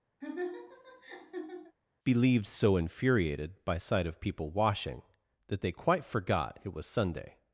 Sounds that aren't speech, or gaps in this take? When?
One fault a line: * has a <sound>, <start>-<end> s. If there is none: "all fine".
* has a laugh, 0.2-1.8 s